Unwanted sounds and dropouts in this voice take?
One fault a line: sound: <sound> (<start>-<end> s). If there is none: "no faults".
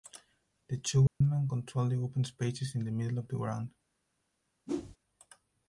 sound: dropout (1.1-1.2 s)
sound: whoosh (4.7-5.0 s)